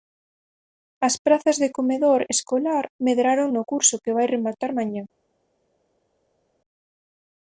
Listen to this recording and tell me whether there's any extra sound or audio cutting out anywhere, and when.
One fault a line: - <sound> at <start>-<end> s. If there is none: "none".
none